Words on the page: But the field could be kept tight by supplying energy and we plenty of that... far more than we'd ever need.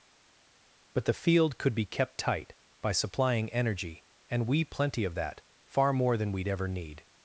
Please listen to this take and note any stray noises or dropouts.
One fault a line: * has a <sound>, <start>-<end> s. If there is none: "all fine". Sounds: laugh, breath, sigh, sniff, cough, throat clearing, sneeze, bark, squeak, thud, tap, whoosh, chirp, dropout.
all fine